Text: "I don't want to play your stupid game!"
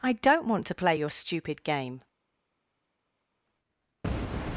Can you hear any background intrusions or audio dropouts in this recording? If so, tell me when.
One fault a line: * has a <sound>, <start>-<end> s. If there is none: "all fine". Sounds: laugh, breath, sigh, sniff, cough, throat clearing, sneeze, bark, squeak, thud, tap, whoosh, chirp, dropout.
all fine